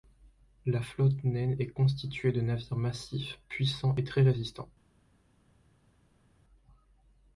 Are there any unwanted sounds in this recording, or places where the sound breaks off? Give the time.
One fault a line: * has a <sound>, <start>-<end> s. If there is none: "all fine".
all fine